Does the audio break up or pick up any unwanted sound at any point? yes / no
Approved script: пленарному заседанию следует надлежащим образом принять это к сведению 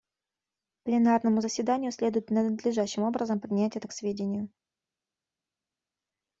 no